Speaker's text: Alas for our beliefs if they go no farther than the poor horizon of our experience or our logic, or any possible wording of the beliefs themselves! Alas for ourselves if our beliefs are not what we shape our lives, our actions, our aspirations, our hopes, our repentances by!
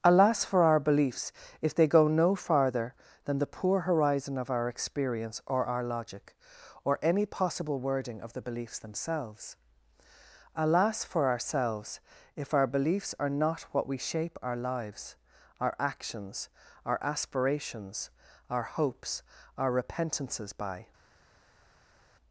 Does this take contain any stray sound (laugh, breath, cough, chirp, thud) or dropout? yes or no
no